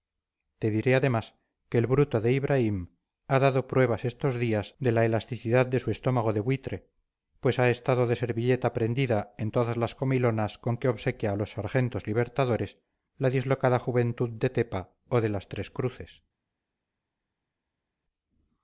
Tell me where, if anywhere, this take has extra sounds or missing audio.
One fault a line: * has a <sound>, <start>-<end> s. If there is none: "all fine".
all fine